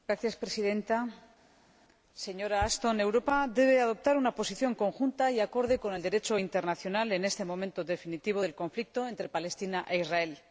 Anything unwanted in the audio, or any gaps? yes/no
no